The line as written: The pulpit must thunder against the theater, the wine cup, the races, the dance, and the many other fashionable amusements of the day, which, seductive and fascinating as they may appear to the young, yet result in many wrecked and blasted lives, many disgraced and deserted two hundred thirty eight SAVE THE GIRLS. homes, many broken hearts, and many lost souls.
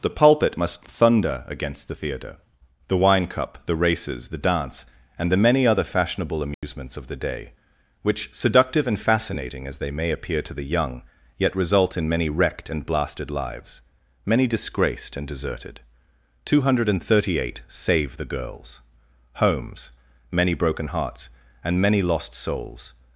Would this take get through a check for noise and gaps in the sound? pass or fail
fail